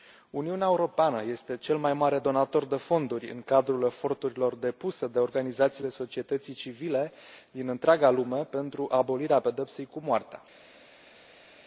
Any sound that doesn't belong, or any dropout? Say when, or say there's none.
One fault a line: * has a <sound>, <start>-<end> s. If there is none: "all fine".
all fine